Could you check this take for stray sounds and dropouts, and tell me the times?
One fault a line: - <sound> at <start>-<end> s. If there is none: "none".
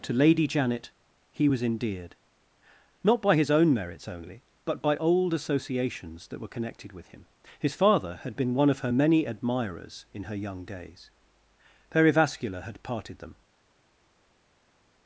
none